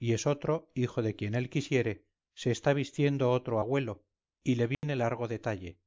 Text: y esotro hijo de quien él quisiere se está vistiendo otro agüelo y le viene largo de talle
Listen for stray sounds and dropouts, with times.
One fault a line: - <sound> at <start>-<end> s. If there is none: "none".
- dropout at 4.7-4.8 s